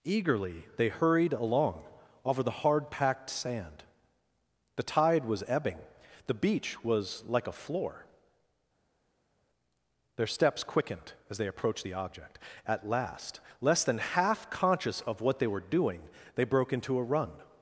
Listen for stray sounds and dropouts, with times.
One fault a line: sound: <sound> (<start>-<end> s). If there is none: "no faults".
no faults